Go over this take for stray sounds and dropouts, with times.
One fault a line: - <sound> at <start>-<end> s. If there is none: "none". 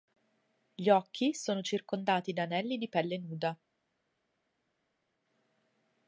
none